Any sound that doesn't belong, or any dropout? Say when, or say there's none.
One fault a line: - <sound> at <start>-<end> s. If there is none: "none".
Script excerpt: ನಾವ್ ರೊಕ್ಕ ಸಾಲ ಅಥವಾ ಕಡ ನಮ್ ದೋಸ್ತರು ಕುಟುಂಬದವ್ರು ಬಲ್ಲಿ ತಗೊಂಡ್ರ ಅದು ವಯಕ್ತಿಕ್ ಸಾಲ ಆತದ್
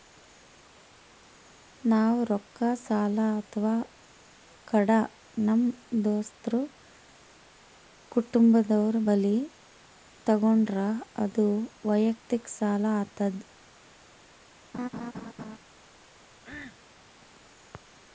- laugh at 14.7-15.6 s
- cough at 16.4-16.8 s